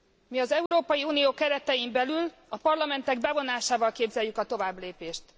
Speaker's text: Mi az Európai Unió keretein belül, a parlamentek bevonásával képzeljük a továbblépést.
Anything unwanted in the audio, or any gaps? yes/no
yes